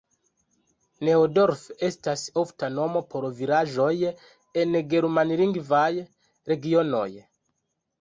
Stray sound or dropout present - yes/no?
no